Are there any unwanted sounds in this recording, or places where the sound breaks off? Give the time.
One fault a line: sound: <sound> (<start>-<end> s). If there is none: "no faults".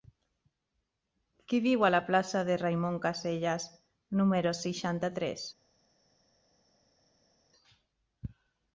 no faults